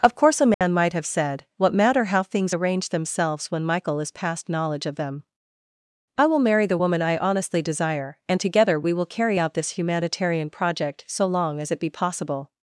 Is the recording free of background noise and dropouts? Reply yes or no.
no